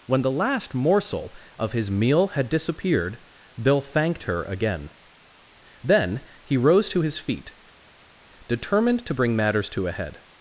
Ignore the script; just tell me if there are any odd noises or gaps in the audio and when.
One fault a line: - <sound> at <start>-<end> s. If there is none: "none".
none